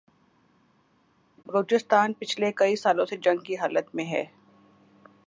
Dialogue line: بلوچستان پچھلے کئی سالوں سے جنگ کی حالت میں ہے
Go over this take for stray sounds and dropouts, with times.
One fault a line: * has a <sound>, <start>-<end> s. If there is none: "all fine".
all fine